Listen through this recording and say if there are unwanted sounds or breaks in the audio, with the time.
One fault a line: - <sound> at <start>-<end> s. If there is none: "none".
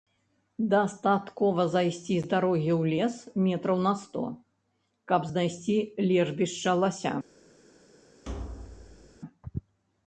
- thud at 8.2-9.2 s